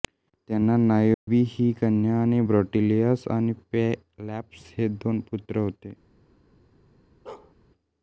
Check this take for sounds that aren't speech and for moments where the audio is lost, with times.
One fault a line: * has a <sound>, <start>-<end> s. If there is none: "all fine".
* has a dropout, 1.1-1.3 s
* has a bark, 7.3-7.5 s